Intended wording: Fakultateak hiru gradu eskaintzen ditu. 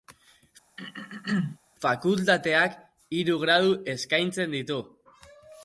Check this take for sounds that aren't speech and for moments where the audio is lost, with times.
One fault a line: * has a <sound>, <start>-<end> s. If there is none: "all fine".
* has a throat clearing, 0.8-1.6 s